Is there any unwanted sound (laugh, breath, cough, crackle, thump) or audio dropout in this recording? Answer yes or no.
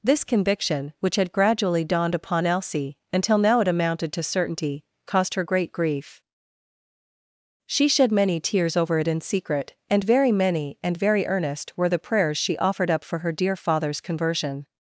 no